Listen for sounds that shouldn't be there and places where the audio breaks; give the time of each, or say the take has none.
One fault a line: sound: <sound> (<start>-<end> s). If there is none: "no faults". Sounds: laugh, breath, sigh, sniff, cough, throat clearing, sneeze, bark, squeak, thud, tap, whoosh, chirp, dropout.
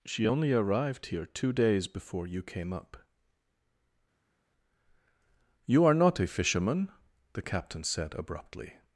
no faults